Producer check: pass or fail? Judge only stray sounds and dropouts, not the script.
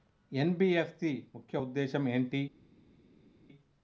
pass